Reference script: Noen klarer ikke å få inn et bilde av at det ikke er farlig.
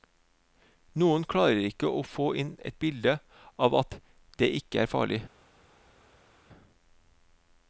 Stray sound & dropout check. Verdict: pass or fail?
pass